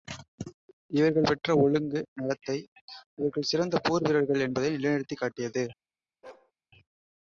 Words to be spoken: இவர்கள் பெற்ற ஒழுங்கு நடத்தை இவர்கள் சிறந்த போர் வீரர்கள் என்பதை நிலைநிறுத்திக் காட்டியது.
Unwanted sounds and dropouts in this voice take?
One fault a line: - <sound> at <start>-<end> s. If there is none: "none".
- bark at 6.2-6.5 s